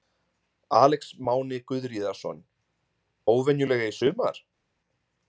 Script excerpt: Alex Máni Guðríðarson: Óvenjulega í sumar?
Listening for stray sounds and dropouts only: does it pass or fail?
pass